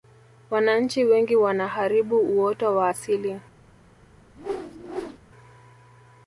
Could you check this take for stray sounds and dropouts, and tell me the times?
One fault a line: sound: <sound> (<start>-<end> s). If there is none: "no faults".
sound: whoosh (4.4-5.2 s)